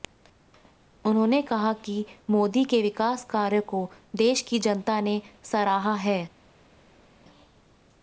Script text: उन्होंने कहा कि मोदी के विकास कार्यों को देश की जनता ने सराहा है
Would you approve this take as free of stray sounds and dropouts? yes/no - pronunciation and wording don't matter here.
yes